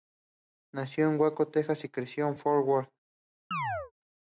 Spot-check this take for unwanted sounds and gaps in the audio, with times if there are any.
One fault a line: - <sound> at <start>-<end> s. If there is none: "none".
- chirp at 3.5-3.9 s